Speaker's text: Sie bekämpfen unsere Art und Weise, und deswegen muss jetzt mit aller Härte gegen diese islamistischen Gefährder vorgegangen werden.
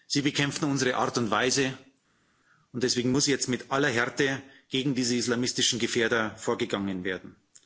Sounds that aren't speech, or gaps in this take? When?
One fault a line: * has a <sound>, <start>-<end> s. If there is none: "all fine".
all fine